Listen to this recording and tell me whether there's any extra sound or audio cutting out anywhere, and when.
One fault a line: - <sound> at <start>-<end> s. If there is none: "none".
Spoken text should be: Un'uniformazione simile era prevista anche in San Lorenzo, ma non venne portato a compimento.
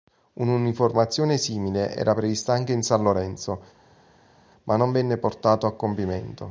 none